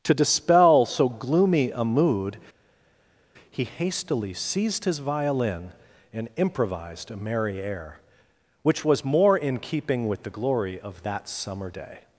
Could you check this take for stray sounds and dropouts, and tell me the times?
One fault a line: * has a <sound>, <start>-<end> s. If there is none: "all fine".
all fine